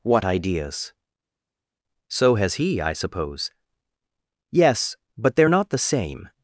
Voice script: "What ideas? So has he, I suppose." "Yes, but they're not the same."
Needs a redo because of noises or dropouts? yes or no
no